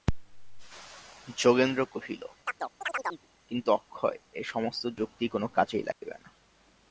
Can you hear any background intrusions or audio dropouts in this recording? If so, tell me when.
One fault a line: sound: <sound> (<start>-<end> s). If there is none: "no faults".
sound: chirp (2.5-3.3 s)
sound: dropout (5.9-6.0 s)